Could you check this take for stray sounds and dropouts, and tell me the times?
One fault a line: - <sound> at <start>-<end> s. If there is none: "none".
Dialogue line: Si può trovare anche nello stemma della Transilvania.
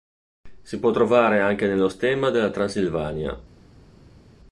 none